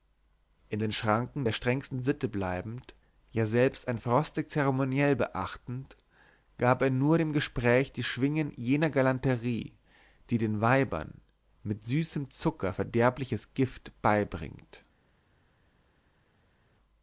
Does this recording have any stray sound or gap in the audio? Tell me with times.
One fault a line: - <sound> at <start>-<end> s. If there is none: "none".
none